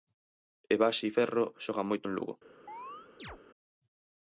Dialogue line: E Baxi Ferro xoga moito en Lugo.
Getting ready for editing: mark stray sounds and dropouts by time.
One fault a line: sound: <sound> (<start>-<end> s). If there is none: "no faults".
sound: chirp (2.7-3.4 s)